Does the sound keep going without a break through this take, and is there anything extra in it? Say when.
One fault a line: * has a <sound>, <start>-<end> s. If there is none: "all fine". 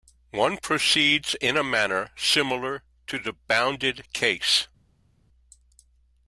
all fine